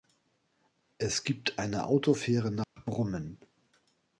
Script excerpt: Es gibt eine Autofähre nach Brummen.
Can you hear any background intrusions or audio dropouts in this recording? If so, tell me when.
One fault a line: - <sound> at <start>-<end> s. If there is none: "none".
- dropout at 2.6-2.8 s